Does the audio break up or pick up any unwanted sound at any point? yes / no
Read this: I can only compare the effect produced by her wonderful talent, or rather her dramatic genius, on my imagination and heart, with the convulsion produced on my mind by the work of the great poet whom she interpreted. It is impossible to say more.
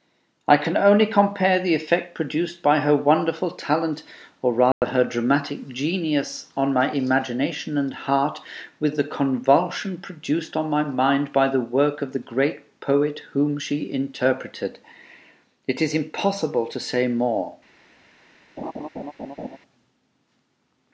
yes